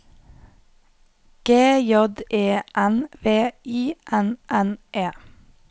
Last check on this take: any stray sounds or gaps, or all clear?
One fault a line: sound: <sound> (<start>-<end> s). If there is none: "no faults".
no faults